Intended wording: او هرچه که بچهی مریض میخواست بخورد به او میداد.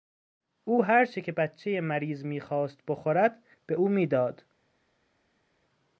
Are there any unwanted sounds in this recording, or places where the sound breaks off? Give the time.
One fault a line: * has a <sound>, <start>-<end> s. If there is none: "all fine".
all fine